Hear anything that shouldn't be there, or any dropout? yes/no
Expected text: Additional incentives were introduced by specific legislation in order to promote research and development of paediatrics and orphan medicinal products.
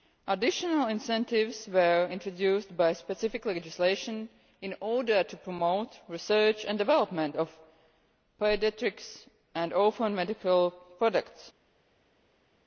no